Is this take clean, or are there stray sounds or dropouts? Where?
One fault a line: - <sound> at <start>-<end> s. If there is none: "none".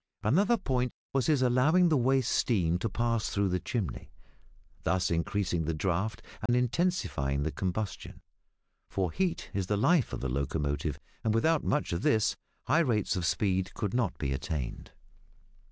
- dropout at 6.5-6.5 s